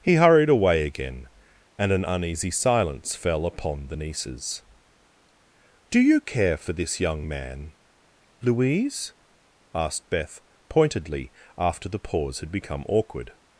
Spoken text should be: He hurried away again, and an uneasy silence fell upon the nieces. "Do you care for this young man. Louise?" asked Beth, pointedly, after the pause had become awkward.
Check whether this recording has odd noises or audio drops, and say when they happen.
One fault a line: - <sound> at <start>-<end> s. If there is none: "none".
none